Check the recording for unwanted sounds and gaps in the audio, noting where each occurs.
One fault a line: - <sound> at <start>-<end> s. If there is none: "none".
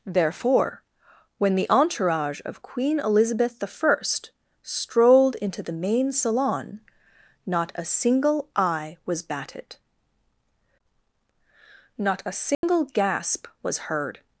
- dropout at 12.5-12.6 s